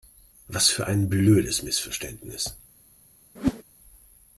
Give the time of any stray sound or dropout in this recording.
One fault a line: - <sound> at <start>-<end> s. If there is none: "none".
- whoosh at 3.4-3.6 s